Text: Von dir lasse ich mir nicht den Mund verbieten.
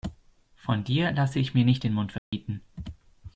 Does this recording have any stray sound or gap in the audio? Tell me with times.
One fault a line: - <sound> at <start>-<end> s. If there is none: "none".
- dropout at 2.2-2.3 s